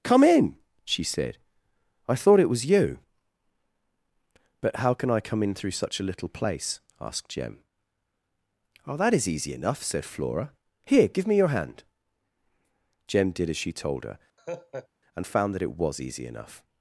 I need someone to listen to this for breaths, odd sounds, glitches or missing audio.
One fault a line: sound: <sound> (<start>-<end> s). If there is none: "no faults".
sound: laugh (14.4-14.9 s)